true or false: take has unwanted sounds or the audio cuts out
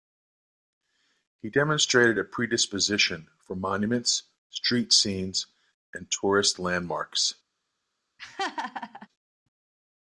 true